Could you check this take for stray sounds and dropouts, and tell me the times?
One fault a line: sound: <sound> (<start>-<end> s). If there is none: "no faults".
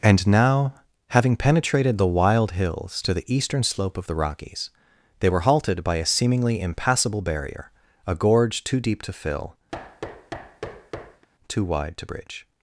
sound: thud (9.7-11.3 s)